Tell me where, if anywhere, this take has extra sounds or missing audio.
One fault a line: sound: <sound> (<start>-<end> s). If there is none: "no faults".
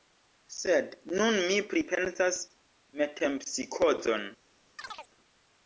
sound: chirp (4.8-5.1 s)